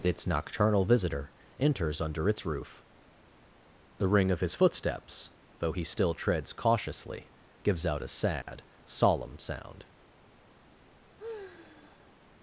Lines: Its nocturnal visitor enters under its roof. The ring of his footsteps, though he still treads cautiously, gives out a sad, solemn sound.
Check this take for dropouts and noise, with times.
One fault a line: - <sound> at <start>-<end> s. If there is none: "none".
- dropout at 8.4-8.5 s
- sigh at 11.2-12.1 s